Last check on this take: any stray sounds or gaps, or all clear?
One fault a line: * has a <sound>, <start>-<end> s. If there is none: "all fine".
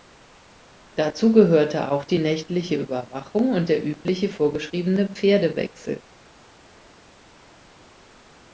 all fine